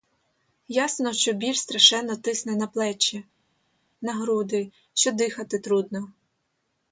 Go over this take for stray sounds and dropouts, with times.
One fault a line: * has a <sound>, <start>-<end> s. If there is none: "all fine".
all fine